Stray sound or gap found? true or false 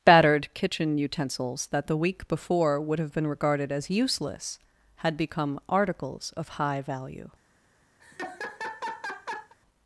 true